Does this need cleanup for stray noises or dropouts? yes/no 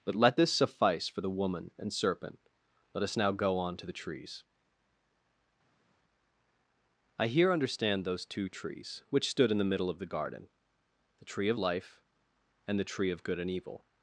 no